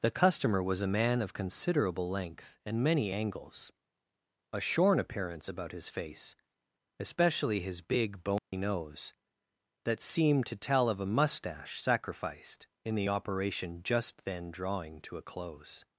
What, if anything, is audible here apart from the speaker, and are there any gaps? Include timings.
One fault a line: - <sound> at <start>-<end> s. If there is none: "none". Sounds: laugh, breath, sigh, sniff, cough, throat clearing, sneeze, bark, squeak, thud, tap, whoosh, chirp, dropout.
- dropout at 8.4-8.5 s